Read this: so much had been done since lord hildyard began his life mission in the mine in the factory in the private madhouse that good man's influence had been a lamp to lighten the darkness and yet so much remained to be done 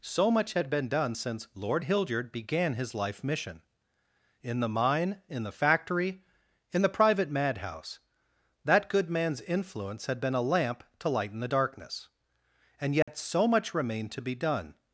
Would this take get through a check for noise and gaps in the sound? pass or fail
fail